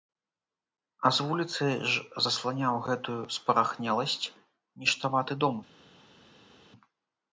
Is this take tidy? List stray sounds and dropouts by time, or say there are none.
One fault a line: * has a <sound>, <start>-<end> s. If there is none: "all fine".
all fine